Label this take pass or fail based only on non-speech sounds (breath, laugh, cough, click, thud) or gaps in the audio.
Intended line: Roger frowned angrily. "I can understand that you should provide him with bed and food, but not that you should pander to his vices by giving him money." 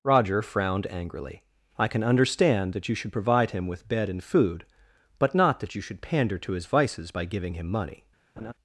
fail